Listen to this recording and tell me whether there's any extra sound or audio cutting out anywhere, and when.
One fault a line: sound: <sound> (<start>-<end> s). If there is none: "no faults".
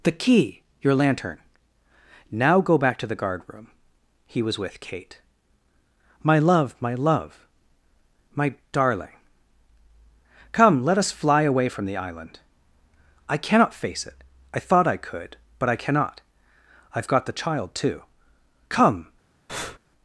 sound: breath (19.5-19.8 s)